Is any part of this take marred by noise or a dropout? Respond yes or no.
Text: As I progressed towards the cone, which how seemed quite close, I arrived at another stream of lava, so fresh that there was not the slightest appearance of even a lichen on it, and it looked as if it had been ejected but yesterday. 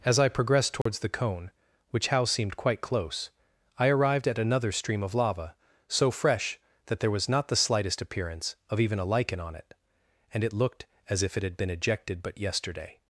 yes